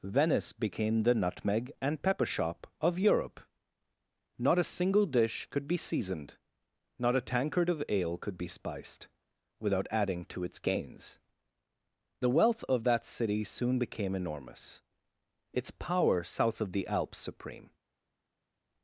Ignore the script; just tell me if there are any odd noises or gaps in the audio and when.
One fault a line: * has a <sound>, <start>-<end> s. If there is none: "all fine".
all fine